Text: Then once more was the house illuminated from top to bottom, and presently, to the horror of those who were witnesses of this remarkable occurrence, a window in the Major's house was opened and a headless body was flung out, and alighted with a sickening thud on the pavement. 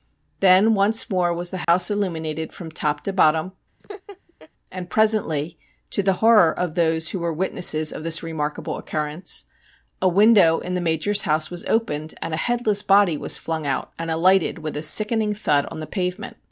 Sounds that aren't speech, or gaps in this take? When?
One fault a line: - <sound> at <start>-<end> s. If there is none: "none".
- dropout at 1.6-1.7 s
- laugh at 3.8-4.5 s